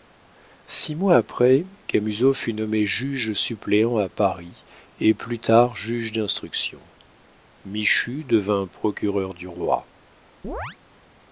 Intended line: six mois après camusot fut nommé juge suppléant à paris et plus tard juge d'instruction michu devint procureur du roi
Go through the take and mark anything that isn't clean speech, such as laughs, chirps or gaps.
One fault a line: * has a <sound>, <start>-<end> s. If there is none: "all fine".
* has a chirp, 10.4-10.8 s